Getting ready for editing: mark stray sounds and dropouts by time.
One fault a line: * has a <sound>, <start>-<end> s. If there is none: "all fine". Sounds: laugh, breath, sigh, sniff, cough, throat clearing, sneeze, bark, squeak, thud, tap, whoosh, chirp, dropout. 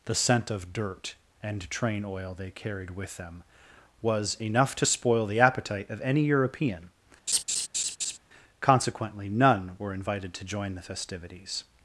* has a laugh, 7.3-8.2 s